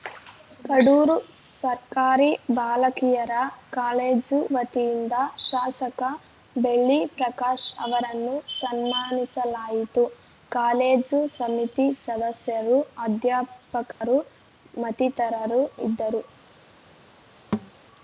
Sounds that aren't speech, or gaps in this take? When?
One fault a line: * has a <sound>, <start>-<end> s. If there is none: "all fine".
* has a dropout, 13.9-14.0 s
* has a thud, 17.5-17.7 s